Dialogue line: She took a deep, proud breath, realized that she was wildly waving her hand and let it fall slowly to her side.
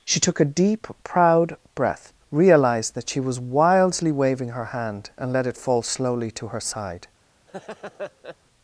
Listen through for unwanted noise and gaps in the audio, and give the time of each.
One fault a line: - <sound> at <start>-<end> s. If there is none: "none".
- laugh at 7.5-8.4 s